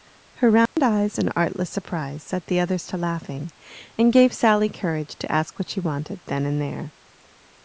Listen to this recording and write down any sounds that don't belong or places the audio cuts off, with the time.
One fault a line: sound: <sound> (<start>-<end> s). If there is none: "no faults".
sound: dropout (0.7-0.8 s)